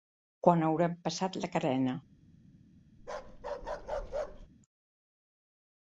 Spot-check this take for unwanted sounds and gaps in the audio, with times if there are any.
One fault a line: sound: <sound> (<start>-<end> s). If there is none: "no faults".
sound: bark (3.0-4.5 s)